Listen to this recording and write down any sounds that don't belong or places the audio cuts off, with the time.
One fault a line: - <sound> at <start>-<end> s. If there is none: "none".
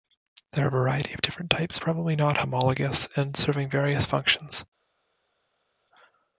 none